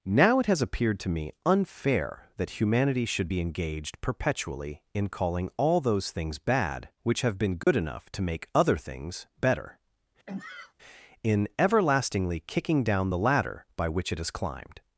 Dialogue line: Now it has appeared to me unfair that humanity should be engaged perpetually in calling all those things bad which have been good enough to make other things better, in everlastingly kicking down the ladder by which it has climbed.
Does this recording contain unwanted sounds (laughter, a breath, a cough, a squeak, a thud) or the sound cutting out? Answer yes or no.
yes